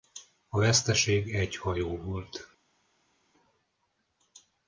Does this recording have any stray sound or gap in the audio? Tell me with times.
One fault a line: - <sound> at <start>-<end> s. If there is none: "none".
none